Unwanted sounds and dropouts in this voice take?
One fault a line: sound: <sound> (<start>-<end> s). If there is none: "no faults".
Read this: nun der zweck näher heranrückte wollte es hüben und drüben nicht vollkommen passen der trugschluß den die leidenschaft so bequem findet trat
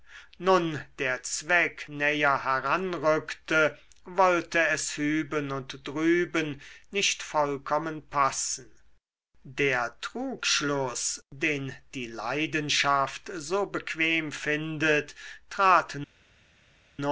no faults